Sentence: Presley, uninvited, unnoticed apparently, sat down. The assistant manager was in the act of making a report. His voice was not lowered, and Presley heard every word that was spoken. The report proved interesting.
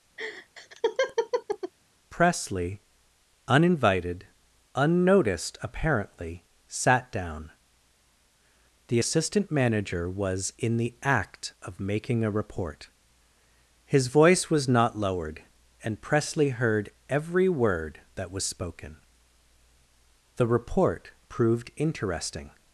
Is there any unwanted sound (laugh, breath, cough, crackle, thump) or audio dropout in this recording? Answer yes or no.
yes